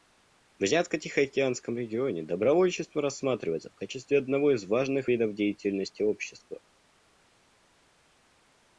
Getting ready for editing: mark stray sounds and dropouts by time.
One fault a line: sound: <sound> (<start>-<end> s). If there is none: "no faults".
no faults